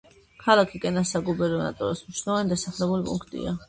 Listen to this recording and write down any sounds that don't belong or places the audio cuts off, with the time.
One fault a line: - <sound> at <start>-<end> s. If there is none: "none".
none